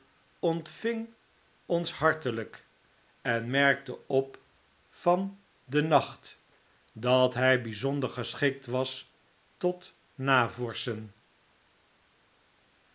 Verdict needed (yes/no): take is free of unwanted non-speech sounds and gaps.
yes